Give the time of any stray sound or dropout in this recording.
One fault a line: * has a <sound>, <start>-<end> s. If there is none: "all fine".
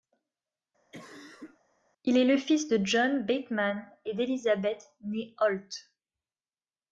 * has a cough, 0.9-1.6 s